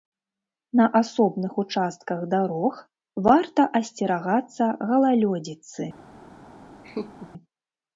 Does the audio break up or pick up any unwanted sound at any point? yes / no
yes